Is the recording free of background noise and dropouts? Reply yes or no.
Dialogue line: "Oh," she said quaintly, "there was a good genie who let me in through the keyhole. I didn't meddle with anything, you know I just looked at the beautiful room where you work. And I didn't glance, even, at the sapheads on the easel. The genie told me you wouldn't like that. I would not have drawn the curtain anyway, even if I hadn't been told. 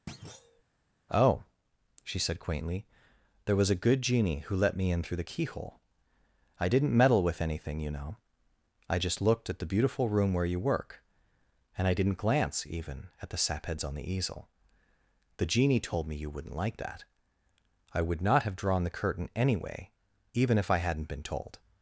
no